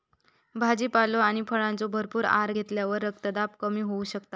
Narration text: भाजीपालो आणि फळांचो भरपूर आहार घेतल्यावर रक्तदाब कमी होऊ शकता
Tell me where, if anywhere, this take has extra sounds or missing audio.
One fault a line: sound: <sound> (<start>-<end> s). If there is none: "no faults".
no faults